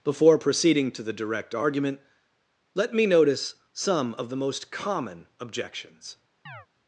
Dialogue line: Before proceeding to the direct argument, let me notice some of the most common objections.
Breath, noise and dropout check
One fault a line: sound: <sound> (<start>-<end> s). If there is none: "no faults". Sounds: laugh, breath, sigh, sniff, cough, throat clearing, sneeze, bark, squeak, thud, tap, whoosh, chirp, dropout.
sound: chirp (6.5-6.7 s)